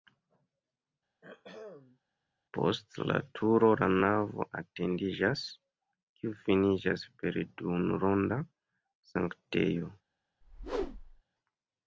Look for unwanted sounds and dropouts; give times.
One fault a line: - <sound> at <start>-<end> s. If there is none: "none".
- throat clearing at 1.2-2.0 s
- whoosh at 10.4-11.2 s